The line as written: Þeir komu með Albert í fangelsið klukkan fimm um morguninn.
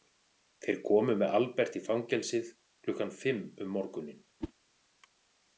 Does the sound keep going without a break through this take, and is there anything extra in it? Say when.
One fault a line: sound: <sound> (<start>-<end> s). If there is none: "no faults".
sound: whoosh (4.4-4.5 s)